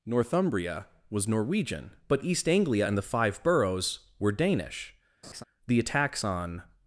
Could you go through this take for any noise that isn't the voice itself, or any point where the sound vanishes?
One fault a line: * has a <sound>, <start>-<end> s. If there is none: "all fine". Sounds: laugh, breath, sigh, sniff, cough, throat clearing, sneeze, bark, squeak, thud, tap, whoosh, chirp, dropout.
* has a laugh, 5.2-5.4 s